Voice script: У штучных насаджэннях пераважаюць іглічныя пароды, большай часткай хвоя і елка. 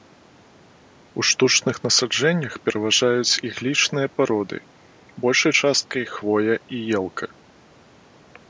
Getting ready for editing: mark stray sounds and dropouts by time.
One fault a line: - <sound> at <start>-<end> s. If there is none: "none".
none